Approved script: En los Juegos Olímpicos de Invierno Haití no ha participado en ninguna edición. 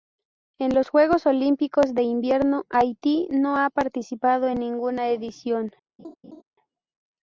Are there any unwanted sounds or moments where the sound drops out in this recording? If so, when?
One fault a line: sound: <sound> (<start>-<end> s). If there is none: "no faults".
sound: laugh (6.0-6.4 s)